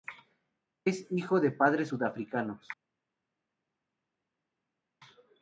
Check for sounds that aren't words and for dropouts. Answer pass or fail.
pass